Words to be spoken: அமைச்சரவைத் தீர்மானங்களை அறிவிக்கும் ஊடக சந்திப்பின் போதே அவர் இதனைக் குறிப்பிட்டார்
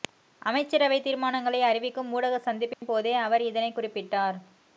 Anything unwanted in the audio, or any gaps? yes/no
yes